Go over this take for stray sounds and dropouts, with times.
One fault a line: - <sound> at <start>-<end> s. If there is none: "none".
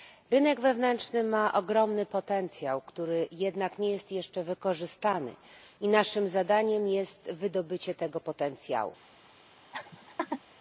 - laugh at 9.7-10.4 s